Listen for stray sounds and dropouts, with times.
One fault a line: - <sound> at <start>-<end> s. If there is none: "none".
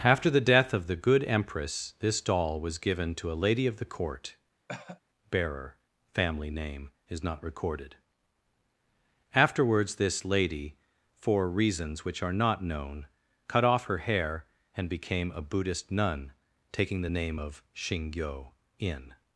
- cough at 4.7-5.0 s